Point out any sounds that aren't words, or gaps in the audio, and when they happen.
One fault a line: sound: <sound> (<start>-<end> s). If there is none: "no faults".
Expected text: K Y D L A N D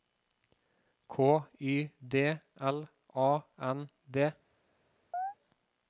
sound: chirp (5.1-5.3 s)